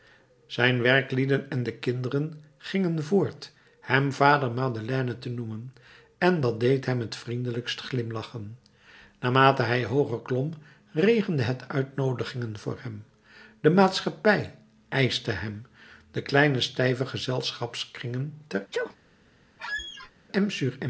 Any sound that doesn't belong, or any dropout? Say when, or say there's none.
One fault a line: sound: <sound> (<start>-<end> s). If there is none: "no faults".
sound: sneeze (18.7-19.0 s)
sound: squeak (19.6-20.1 s)